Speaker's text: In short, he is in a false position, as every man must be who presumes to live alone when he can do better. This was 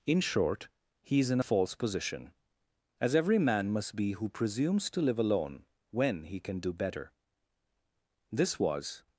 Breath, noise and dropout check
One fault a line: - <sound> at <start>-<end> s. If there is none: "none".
none